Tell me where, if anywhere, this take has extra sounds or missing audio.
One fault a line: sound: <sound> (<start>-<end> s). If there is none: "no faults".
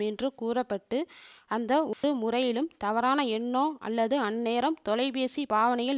sound: dropout (1.9-2.0 s)